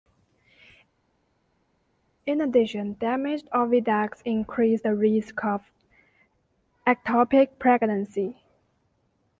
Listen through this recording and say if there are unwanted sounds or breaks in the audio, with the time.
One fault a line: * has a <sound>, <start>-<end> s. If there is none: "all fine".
all fine